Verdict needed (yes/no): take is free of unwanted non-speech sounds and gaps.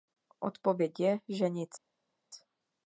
yes